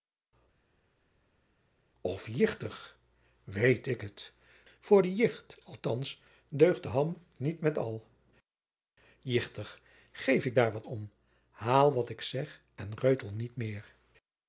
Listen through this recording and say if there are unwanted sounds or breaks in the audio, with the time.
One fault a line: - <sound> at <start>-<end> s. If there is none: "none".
none